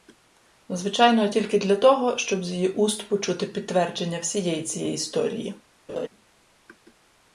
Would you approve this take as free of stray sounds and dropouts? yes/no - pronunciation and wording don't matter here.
no